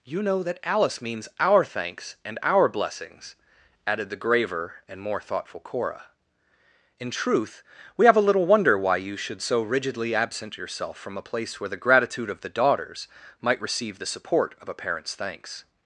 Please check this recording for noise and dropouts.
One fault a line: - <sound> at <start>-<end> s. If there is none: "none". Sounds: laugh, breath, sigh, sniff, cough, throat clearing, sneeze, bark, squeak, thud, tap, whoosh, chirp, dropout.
none